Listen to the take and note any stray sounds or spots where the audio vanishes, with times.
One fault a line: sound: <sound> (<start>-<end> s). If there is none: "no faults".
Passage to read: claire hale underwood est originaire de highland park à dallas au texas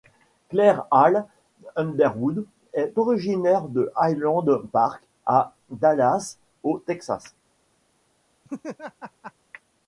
sound: laugh (8.4-9.3 s)